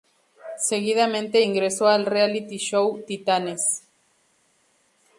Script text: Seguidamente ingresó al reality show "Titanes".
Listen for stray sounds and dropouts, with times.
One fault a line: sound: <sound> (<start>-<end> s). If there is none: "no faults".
no faults